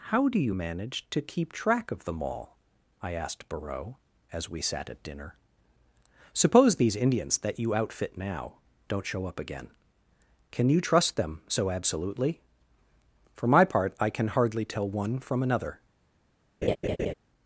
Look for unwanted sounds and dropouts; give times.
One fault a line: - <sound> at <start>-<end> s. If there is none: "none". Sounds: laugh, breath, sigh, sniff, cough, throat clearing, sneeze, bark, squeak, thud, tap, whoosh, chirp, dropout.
- laugh at 16.6-17.1 s